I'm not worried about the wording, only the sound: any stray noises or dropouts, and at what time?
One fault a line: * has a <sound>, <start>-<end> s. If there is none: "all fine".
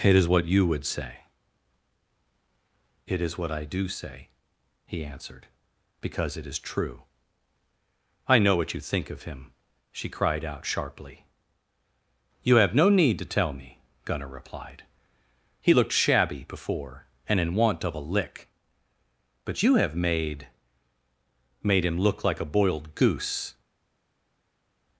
all fine